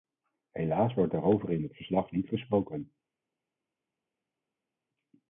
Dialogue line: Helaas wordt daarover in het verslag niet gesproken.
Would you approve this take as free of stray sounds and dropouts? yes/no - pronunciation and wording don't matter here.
yes